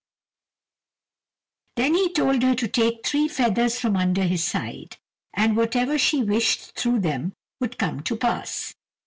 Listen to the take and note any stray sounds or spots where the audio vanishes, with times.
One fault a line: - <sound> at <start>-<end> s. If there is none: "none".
none